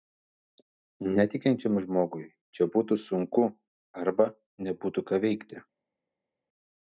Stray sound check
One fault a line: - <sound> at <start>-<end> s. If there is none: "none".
none